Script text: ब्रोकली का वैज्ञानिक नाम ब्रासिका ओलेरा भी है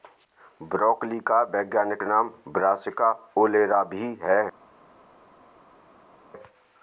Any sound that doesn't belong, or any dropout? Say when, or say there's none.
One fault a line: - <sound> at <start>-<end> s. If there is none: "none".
none